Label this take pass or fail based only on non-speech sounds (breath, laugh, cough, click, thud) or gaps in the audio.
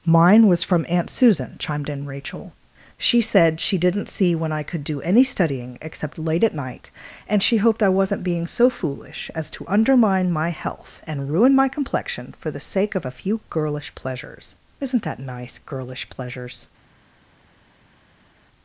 pass